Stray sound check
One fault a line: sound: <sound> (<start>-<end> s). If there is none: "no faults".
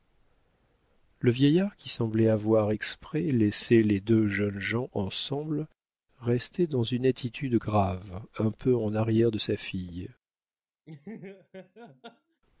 sound: laugh (10.9-12.4 s)